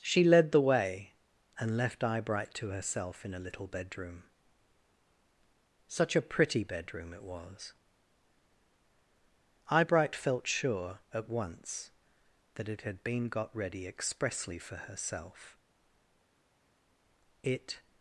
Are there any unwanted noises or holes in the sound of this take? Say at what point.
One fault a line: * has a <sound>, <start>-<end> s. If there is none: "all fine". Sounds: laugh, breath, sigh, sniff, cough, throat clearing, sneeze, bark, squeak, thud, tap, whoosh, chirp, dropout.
all fine